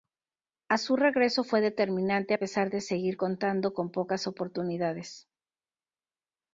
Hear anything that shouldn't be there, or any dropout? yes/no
no